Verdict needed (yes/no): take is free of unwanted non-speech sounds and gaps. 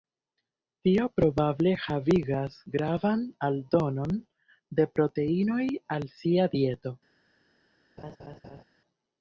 no